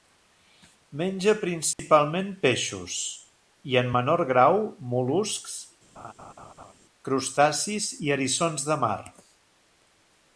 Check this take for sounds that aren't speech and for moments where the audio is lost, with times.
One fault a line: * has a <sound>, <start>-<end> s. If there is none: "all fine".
* has a dropout, 1.7-1.8 s
* has a laugh, 6.0-6.7 s